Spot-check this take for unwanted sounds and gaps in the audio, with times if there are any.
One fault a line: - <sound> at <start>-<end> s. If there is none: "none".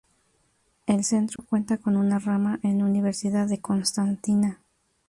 - dropout at 1.4-1.4 s